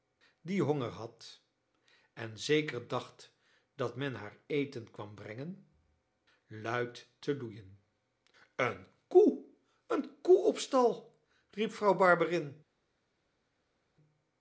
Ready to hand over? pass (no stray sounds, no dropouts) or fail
pass